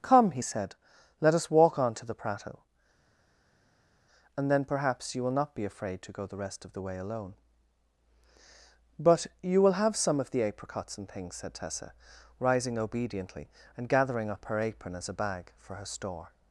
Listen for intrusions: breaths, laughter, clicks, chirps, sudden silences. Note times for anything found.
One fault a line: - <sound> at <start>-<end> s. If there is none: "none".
none